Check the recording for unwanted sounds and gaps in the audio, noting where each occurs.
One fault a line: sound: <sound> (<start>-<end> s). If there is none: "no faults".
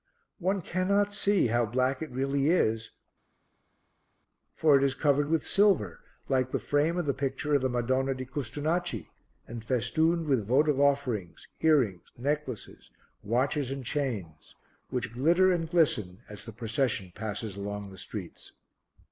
no faults